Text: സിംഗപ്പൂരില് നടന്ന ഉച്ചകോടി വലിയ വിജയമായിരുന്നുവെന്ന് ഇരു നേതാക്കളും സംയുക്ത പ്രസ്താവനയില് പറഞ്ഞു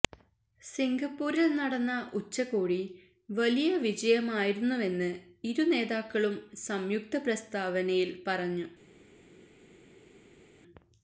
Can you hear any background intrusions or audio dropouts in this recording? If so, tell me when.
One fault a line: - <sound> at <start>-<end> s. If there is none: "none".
none